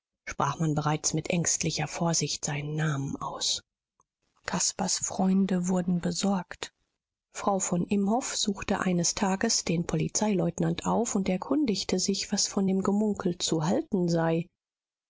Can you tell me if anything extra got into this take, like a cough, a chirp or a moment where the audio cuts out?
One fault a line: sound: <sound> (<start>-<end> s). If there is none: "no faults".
no faults